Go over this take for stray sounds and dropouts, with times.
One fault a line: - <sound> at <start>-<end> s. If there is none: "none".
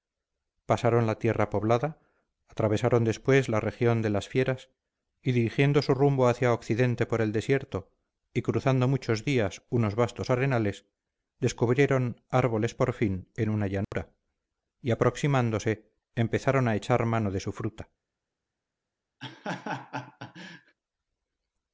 - dropout at 13.8-13.9 s
- laugh at 19.2-20.8 s